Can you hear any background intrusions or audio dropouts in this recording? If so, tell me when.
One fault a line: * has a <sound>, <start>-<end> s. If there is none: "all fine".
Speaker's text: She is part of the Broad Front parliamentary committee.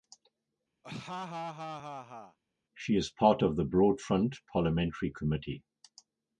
* has a laugh, 0.8-2.4 s